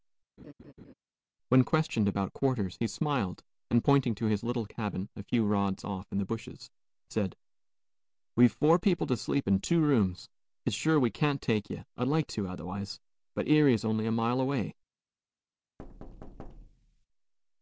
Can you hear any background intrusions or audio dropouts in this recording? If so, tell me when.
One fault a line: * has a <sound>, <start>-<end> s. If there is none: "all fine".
* has a laugh, 0.4-0.9 s
* has a thud, 15.8-17.1 s